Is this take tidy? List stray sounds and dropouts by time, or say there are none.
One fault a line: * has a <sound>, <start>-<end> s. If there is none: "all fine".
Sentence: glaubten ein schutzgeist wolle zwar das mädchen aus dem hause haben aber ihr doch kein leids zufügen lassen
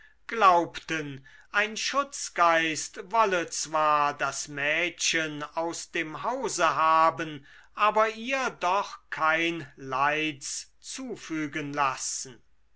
all fine